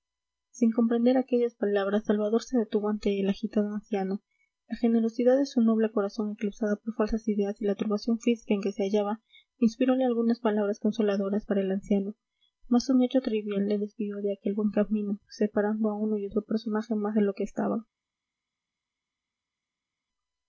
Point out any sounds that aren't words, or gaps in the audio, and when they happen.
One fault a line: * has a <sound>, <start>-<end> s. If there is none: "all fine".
all fine